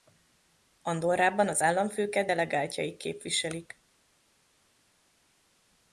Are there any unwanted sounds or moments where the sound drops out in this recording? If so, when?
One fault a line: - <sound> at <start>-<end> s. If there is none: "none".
none